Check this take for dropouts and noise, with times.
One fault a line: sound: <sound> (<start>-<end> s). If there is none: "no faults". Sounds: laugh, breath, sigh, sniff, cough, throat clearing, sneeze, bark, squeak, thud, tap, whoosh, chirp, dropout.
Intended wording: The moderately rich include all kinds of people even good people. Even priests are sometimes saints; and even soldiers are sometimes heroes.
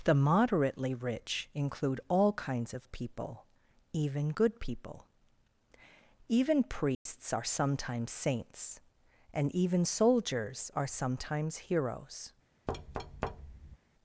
sound: dropout (6.9-7.1 s)
sound: thud (12.7-13.8 s)